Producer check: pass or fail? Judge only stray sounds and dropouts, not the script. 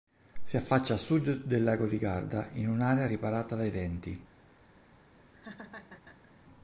fail